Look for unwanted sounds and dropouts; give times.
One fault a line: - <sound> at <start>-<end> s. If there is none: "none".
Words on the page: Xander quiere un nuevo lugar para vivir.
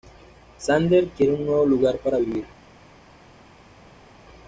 none